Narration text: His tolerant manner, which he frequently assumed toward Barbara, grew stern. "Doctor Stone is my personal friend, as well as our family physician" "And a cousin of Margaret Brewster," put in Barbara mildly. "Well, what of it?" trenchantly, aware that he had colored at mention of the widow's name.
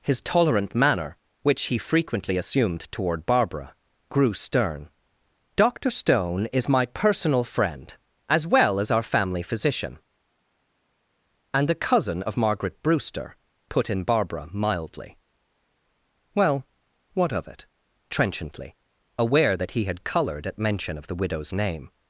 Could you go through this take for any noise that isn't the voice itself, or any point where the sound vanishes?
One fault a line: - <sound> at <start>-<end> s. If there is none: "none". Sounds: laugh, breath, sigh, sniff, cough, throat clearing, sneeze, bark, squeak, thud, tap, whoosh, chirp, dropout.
none